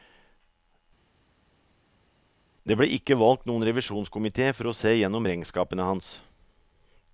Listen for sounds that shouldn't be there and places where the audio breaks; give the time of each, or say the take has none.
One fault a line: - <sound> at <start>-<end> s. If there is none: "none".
none